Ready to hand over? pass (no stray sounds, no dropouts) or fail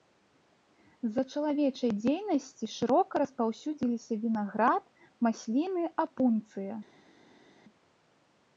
pass